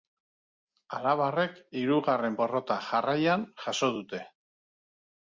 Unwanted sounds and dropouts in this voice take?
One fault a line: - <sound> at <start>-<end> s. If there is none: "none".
none